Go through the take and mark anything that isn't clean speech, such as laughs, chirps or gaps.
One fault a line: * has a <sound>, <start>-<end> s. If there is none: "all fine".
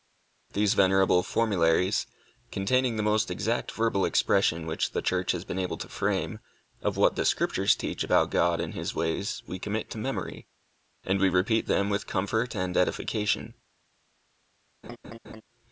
* has a laugh, 14.8-15.4 s